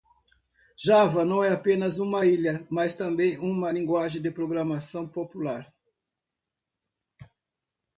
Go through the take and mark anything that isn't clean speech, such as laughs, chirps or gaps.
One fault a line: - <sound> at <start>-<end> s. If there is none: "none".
none